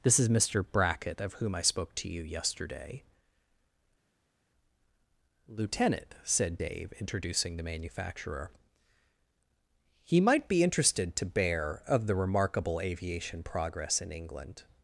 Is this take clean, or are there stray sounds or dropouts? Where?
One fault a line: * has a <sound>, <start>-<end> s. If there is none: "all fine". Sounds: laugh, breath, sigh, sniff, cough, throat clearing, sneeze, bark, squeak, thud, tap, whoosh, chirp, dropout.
all fine